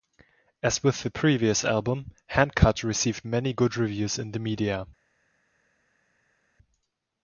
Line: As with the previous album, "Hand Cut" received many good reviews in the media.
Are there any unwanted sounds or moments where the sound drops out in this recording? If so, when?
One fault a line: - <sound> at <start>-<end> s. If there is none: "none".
none